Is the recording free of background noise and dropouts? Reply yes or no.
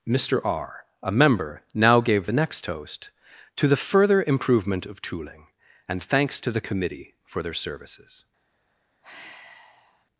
no